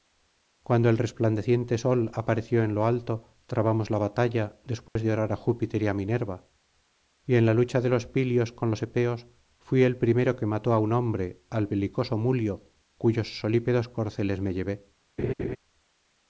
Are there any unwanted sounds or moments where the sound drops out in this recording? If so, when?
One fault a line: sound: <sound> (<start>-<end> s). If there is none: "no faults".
sound: dropout (4.9-5.0 s)
sound: laugh (15.2-15.6 s)